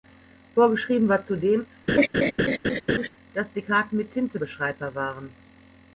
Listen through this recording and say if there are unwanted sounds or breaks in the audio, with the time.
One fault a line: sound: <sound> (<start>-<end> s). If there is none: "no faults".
sound: laugh (1.9-3.1 s)